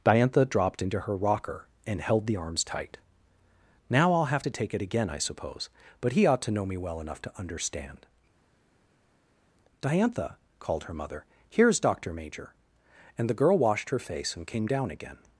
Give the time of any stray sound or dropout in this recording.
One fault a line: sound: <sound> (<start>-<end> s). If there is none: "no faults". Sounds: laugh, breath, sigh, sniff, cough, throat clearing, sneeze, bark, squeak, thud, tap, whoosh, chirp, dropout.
no faults